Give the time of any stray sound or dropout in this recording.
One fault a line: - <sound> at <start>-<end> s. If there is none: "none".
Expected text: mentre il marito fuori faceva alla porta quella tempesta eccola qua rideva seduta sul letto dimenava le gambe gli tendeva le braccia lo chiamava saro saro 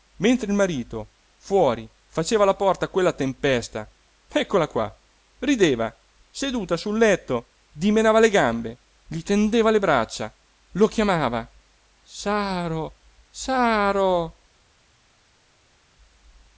none